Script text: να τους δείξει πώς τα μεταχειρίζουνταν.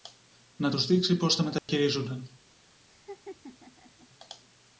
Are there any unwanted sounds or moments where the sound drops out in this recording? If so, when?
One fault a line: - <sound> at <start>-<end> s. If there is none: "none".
- dropout at 1.6-1.7 s
- laugh at 2.9-4.1 s